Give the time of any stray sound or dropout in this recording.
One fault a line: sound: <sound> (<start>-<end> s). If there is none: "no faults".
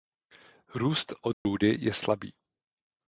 sound: dropout (1.3-1.5 s)